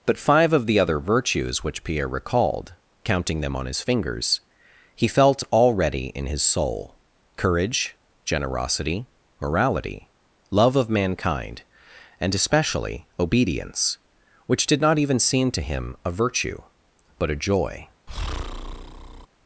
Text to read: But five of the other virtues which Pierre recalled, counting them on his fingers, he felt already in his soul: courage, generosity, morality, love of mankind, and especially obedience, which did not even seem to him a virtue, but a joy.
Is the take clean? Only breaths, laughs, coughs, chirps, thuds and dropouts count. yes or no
no